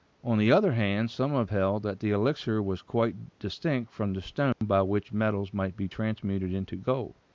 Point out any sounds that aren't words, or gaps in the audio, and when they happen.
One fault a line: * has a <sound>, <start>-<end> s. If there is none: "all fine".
* has a dropout, 4.5-4.6 s